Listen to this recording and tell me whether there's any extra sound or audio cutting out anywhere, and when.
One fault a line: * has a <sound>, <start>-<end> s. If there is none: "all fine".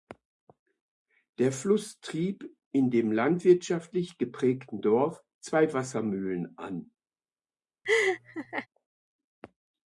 * has a laugh, 7.8-8.7 s